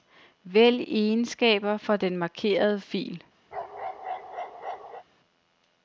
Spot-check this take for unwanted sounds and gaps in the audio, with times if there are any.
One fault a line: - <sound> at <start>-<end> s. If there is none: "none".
- bark at 3.5-5.0 s